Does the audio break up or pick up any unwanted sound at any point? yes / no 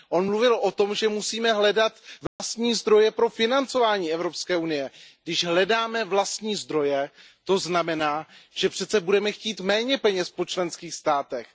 yes